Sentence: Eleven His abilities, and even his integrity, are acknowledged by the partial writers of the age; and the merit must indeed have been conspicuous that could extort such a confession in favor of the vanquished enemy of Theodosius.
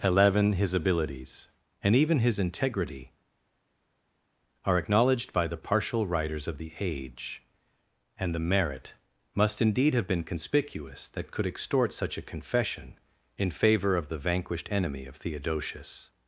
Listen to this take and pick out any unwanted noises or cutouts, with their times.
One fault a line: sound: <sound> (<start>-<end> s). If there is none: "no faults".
no faults